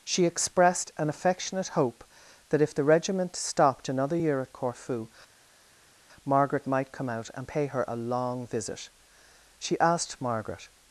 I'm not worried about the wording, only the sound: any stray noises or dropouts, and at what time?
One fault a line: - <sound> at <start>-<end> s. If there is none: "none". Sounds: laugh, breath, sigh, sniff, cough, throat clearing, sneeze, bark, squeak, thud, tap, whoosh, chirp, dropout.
none